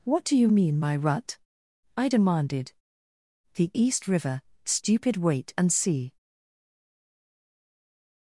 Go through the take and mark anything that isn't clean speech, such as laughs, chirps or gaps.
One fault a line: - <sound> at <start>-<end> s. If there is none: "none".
none